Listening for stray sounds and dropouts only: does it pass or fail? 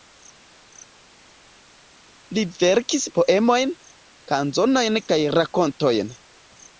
pass